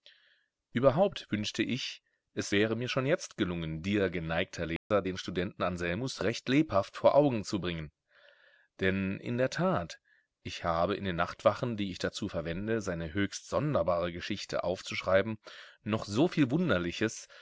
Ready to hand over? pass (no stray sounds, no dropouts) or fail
fail